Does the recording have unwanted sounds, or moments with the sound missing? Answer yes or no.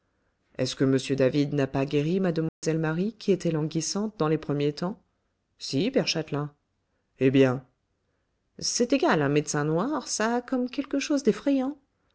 yes